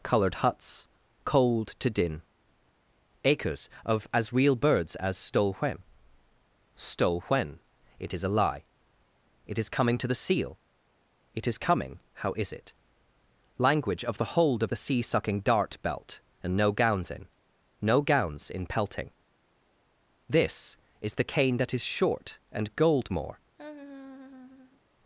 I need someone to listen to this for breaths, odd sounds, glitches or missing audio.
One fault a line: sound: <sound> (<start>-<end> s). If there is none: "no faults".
sound: laugh (23.6-24.8 s)